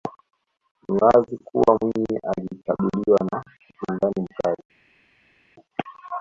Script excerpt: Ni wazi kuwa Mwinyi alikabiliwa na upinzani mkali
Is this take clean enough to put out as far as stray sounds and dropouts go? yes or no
yes